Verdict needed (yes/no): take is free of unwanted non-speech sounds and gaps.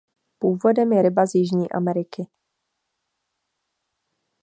yes